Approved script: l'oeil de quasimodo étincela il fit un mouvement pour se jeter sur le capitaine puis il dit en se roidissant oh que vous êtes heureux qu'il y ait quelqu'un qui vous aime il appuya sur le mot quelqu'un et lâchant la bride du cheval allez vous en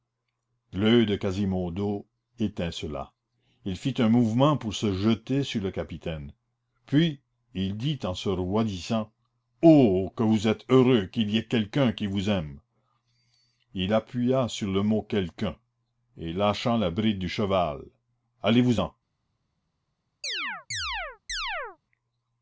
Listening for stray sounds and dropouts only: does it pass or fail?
fail